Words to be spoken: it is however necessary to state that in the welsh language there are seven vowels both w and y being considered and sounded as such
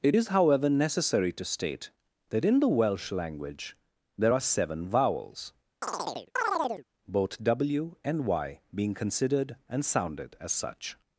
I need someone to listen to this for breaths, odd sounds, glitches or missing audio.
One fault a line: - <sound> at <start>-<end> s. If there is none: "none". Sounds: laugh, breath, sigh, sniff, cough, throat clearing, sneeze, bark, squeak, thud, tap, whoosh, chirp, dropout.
- chirp at 5.8-6.9 s